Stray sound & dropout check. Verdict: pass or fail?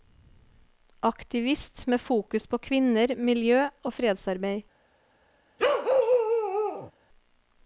fail